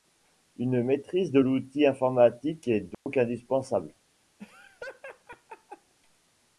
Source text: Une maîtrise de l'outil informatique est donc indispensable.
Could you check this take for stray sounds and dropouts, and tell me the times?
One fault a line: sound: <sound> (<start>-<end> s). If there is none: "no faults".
sound: dropout (2.9-3.1 s)
sound: laugh (4.4-5.9 s)